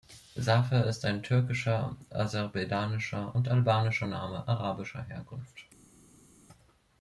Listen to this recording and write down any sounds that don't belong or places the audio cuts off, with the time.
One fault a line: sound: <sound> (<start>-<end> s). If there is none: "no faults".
no faults